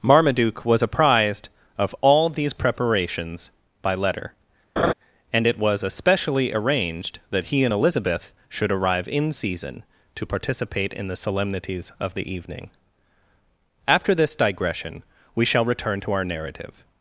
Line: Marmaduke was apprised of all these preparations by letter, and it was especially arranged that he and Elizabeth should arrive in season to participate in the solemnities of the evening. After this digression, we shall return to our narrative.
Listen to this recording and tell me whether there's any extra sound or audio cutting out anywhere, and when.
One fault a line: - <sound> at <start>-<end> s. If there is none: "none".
- laugh at 4.8-4.9 s